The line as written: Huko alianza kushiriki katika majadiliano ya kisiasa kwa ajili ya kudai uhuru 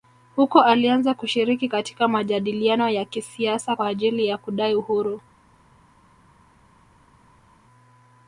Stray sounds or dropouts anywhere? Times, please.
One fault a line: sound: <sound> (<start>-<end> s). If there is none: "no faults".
no faults